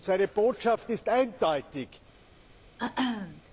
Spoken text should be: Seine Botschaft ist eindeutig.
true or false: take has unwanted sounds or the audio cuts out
true